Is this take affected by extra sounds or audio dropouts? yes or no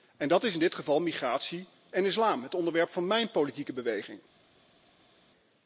no